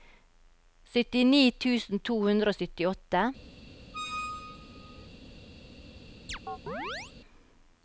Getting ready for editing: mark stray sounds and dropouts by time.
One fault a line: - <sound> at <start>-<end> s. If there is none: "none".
- squeak at 3.9-5.1 s
- chirp at 6.3-7.1 s